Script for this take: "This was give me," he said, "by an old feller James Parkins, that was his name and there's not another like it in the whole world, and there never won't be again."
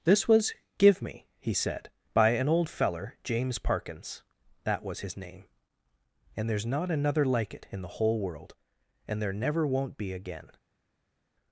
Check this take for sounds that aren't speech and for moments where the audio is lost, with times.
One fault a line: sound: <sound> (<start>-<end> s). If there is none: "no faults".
no faults